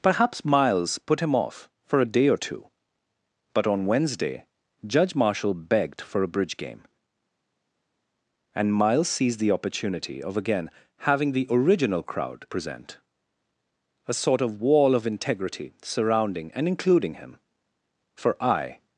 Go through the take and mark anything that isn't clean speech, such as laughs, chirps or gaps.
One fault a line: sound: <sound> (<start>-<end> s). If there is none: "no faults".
no faults